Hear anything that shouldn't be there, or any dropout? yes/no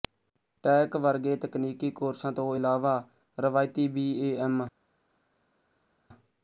no